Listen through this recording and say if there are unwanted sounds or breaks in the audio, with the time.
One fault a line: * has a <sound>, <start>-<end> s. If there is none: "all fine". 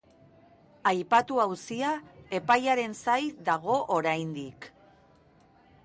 all fine